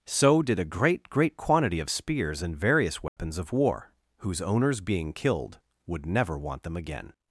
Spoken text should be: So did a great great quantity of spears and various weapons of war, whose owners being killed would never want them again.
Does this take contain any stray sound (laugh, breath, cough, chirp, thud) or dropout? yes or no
yes